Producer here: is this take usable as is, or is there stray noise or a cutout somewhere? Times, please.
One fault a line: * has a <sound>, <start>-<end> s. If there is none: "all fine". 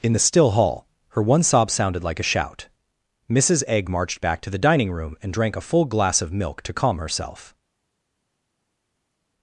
all fine